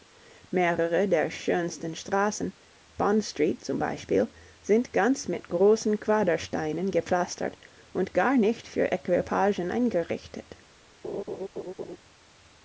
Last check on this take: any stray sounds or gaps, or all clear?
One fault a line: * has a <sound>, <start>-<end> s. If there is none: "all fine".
* has a laugh, 11.0-12.0 s